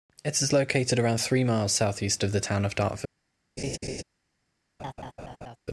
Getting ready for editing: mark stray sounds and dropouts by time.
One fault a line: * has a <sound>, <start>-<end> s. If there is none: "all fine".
* has a laugh, 3.6-4.0 s
* has a laugh, 4.8-5.6 s